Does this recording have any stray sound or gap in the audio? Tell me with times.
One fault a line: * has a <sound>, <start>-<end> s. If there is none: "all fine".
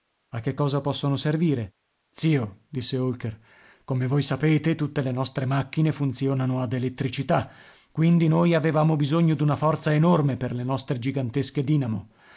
all fine